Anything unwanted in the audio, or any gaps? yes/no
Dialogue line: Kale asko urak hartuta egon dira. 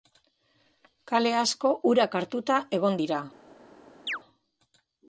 yes